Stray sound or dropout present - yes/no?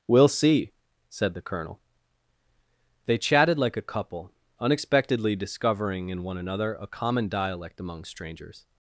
no